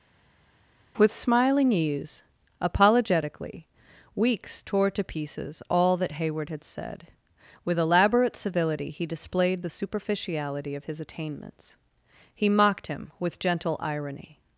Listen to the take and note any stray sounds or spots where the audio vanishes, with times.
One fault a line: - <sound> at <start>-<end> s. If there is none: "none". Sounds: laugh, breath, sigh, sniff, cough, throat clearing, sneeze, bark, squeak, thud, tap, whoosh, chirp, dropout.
none